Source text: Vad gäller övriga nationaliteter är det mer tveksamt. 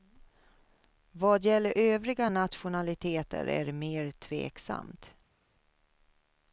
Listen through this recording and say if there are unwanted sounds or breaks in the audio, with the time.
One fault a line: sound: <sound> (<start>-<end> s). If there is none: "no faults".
no faults